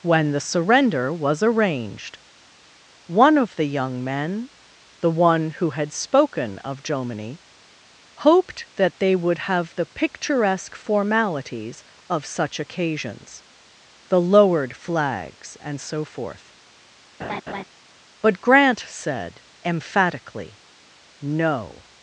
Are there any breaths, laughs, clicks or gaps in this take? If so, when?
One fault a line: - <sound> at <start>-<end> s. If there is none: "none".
- laugh at 17.2-17.6 s